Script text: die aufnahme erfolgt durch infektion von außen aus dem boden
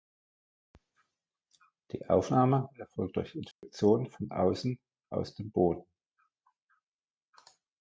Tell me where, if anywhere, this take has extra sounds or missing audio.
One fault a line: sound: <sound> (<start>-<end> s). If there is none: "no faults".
sound: dropout (3.5-3.6 s)